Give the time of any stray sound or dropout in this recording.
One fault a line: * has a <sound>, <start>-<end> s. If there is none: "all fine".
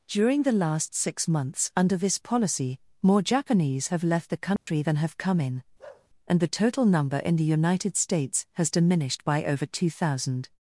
* has a dropout, 4.6-4.7 s
* has a bark, 5.8-6.1 s